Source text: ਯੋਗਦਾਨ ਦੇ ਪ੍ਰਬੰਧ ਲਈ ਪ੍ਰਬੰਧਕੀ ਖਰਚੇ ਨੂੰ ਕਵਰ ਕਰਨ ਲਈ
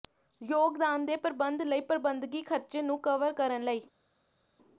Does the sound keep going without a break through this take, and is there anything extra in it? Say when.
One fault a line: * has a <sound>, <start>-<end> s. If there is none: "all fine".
all fine